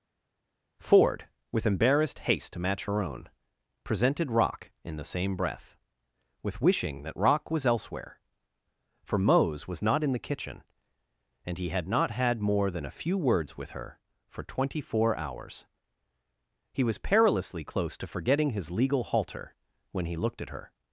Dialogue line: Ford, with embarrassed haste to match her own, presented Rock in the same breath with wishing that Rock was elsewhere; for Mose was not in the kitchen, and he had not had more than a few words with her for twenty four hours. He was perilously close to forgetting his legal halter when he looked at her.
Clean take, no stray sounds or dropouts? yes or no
yes